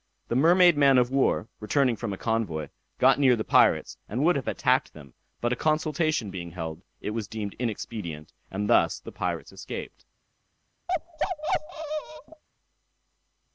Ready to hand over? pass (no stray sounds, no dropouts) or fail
fail